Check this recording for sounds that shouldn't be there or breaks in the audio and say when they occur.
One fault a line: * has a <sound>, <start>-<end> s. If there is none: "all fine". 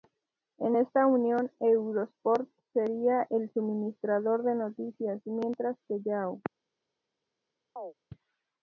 * has a chirp, 7.8-7.9 s